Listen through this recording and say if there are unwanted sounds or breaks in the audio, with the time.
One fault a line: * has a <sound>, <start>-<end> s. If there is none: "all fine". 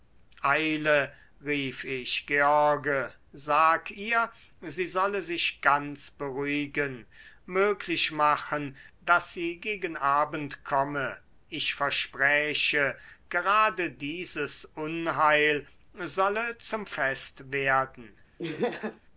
* has a laugh, 18.4-19.0 s